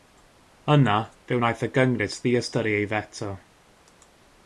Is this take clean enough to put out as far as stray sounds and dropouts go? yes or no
yes